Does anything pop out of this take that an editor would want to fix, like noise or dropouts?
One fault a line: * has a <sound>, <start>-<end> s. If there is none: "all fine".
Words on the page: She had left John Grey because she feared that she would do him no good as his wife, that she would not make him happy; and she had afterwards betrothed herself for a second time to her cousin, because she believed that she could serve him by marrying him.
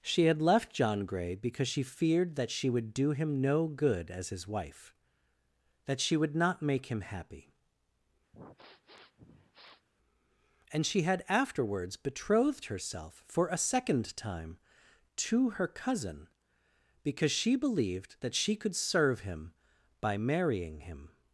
* has a sniff, 8.3-9.9 s